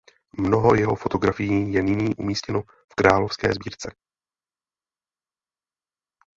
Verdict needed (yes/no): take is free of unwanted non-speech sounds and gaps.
yes